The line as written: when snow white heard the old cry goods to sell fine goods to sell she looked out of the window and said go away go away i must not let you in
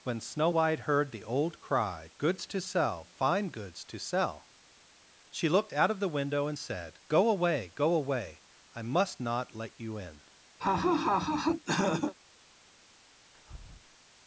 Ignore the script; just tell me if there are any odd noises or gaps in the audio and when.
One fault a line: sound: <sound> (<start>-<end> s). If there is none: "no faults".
sound: laugh (10.6-12.1 s)
sound: breath (13.3-14.0 s)